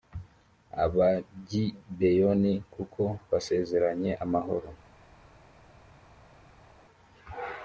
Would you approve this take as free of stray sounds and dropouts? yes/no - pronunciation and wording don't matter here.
yes